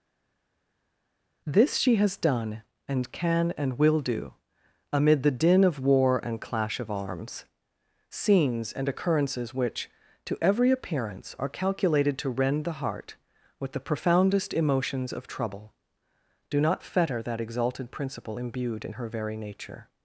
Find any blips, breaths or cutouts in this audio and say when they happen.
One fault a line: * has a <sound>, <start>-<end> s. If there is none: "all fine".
all fine